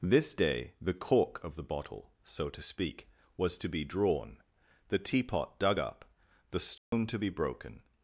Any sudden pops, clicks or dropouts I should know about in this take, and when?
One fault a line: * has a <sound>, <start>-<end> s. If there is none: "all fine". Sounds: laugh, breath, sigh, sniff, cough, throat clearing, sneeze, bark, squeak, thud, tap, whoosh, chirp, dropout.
* has a dropout, 6.8-6.9 s